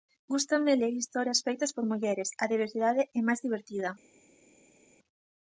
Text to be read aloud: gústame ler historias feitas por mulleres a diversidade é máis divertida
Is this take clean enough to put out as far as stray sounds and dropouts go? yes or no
yes